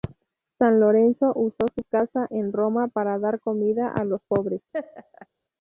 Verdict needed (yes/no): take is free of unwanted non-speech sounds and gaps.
no